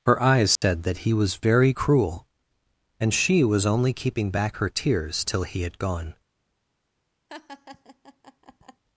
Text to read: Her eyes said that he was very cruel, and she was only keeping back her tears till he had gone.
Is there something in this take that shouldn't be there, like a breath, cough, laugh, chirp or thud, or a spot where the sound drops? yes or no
yes